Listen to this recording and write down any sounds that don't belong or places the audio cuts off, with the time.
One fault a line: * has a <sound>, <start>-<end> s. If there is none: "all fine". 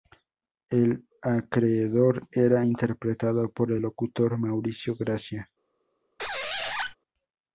* has a squeak, 6.2-7.0 s